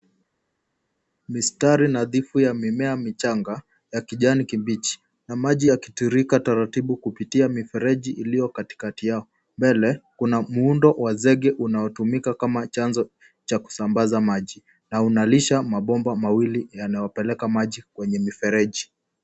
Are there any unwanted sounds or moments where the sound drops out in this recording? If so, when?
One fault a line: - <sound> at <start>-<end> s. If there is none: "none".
none